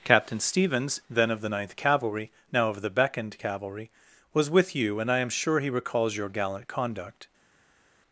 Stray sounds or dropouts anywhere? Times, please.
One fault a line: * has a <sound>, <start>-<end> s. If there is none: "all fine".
all fine